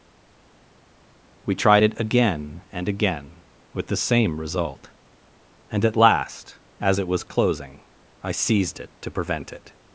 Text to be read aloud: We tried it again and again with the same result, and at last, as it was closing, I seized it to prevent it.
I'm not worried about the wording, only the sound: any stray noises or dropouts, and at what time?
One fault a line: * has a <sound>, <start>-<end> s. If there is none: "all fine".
all fine